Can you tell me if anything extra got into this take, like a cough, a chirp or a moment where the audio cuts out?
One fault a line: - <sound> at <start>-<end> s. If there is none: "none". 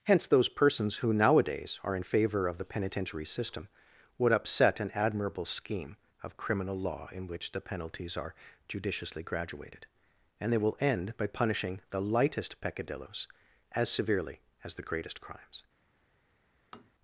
- tap at 16.7-16.9 s